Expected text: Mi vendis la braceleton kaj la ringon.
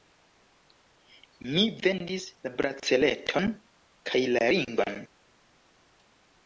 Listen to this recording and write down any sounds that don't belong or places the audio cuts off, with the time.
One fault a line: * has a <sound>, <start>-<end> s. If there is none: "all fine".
all fine